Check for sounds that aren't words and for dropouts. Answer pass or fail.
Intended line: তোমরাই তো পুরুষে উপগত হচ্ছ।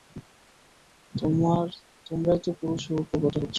pass